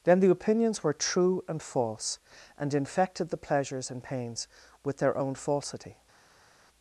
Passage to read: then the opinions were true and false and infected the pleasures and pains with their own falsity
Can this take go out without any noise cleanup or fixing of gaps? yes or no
yes